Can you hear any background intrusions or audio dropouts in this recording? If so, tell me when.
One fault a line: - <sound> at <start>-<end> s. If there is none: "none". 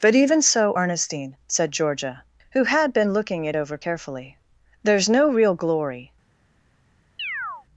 - chirp at 7.2-7.7 s